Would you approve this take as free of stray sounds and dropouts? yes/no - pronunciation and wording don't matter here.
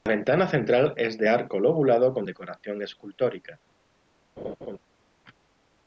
no